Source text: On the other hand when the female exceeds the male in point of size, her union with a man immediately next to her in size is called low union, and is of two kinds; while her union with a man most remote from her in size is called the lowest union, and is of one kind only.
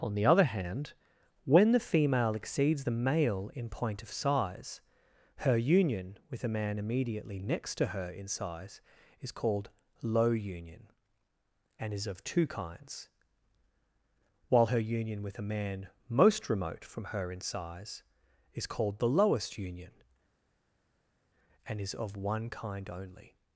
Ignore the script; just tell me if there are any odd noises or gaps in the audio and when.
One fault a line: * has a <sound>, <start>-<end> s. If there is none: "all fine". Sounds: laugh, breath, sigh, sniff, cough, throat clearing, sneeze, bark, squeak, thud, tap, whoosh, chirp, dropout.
all fine